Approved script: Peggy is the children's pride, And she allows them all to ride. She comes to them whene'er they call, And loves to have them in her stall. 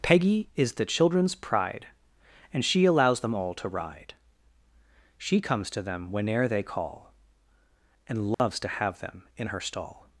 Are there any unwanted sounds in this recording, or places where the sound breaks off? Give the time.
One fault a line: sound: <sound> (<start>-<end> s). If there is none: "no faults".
sound: dropout (8.3-8.4 s)